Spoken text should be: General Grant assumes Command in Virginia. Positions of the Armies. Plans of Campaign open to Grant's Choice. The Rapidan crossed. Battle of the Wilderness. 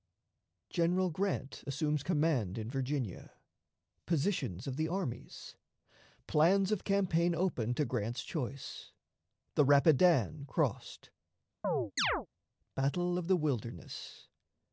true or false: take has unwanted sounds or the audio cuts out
true